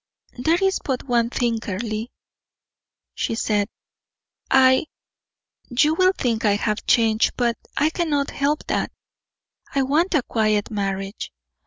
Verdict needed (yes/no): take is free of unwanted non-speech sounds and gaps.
yes